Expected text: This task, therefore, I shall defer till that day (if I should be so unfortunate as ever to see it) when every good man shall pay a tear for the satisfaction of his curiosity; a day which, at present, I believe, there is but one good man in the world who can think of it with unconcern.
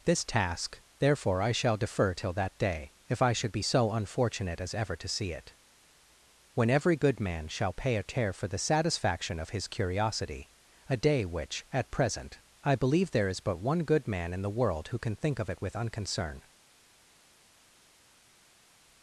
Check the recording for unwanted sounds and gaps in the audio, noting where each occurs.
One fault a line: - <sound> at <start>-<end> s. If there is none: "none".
none